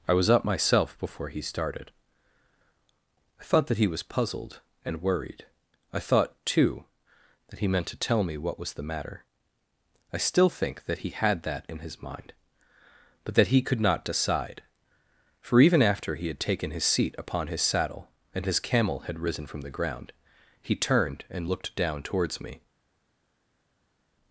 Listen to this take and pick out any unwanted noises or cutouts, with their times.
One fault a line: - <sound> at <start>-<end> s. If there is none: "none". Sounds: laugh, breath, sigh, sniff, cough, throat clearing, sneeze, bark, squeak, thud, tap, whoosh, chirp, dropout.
none